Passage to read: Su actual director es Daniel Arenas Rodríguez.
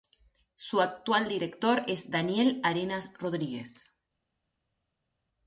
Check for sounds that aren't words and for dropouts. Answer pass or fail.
pass